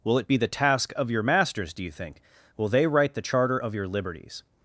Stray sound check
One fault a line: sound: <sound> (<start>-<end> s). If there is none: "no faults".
no faults